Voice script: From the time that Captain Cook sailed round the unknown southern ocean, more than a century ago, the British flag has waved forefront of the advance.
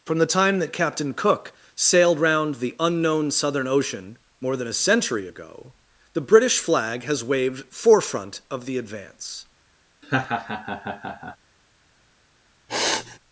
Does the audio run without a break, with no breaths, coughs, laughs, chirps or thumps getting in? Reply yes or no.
no